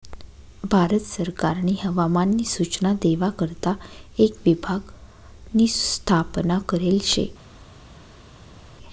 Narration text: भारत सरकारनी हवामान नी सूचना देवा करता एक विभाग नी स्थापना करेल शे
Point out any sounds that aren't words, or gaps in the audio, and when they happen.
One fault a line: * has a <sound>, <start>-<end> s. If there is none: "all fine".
all fine